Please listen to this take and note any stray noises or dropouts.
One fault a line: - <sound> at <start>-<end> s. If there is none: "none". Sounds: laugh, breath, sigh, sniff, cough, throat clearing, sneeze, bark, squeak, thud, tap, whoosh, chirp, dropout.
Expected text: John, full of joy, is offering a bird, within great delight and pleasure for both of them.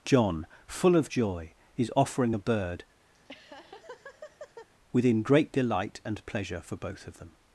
- laugh at 3.1-4.7 s